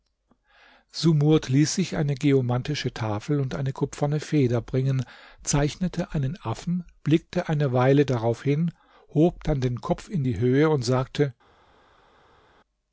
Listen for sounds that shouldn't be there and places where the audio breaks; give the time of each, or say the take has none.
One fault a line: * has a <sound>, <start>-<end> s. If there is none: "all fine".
all fine